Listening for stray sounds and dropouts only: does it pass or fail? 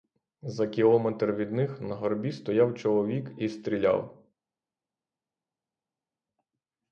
pass